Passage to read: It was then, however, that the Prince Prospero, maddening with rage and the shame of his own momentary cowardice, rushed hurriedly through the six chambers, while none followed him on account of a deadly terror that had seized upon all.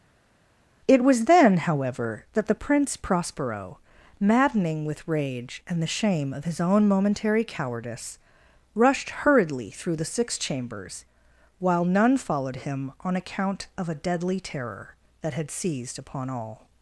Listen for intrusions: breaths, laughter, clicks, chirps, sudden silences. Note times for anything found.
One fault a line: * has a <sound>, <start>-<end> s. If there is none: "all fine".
all fine